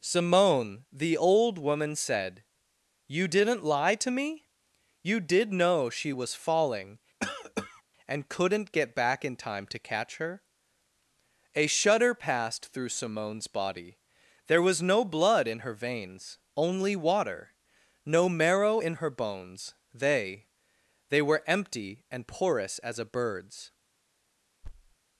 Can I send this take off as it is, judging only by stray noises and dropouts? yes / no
no